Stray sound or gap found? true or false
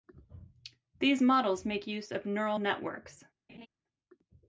true